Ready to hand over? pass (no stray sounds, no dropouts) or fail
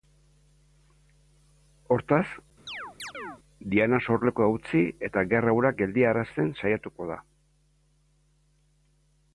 fail